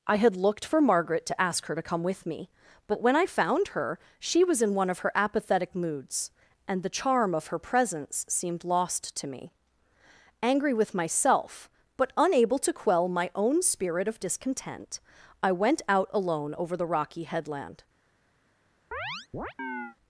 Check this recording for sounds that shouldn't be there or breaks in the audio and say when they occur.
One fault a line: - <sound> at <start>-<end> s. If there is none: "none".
- chirp at 18.9-20.0 s